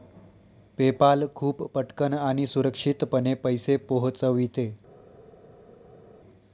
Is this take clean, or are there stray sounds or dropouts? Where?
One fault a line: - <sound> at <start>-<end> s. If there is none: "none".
none